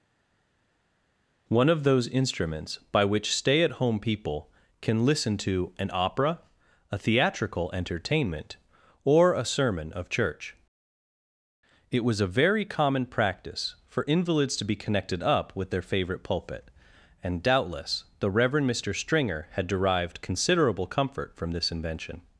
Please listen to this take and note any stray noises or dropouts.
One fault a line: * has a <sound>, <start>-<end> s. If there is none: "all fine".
all fine